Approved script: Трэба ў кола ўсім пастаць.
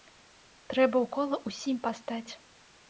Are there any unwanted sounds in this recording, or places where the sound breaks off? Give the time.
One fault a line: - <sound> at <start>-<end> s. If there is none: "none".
none